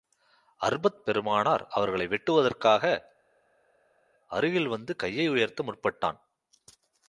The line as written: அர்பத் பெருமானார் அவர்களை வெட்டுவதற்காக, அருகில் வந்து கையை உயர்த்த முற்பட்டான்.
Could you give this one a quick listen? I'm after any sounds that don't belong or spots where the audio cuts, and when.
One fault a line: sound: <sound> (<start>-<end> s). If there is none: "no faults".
no faults